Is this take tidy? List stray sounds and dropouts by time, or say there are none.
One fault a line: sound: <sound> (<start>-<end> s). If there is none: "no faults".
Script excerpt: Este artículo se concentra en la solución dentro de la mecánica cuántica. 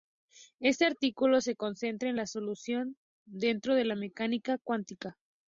no faults